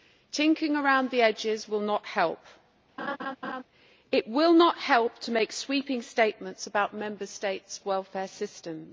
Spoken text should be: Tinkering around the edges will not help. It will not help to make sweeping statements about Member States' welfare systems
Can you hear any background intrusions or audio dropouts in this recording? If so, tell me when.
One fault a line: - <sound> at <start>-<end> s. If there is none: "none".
- laugh at 3.0-3.6 s